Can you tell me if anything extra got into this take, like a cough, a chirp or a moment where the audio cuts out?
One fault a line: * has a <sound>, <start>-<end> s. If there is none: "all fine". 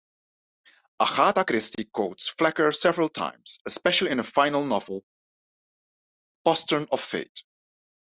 all fine